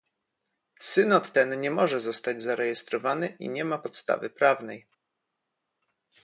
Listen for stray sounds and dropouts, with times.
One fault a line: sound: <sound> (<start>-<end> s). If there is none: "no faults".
no faults